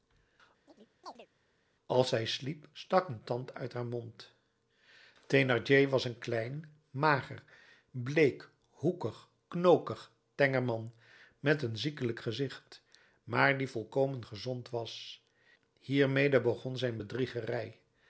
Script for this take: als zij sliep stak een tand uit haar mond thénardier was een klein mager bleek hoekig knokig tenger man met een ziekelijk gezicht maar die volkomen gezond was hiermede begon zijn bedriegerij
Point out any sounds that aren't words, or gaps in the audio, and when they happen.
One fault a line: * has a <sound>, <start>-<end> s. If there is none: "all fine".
* has a chirp, 0.7-1.3 s